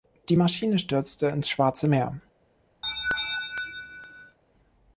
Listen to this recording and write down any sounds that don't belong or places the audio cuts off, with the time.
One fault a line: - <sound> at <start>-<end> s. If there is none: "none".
- laugh at 2.8-4.4 s